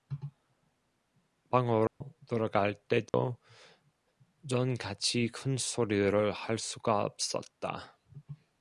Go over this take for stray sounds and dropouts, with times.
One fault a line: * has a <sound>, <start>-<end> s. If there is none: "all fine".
* has a dropout, 1.9-2.0 s
* has a dropout, 3.1-3.1 s